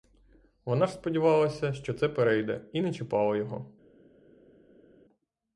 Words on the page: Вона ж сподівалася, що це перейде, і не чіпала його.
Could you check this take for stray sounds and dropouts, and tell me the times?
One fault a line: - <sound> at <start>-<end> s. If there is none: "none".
none